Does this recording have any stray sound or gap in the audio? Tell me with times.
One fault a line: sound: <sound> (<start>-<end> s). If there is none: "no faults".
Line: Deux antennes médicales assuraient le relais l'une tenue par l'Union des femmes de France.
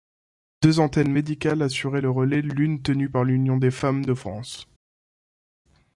no faults